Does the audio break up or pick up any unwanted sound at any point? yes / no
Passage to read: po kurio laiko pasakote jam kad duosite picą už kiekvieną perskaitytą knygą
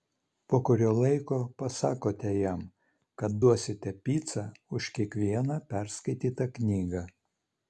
no